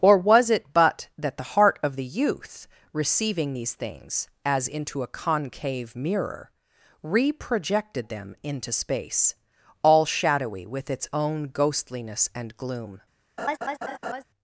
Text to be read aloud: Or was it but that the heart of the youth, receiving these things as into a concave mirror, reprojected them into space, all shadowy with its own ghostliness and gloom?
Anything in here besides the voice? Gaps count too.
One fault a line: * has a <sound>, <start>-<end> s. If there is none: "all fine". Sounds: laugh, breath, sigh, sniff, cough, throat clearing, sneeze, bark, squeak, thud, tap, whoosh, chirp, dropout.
* has a laugh, 13.4-14.2 s